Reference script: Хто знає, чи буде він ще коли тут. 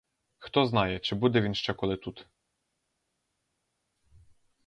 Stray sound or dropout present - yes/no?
no